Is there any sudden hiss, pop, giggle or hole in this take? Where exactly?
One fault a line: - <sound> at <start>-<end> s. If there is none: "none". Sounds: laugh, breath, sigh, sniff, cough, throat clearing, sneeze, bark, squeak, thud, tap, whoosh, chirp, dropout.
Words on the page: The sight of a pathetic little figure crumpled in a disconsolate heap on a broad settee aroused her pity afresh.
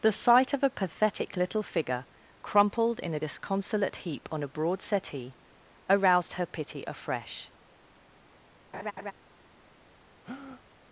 - laugh at 8.7-9.1 s
- breath at 10.2-10.6 s